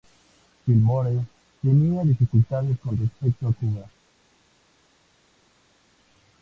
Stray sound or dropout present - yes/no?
no